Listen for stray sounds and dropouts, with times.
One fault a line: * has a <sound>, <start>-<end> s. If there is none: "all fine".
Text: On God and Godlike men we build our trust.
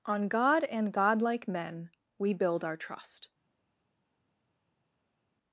all fine